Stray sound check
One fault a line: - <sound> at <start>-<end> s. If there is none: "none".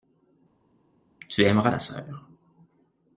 none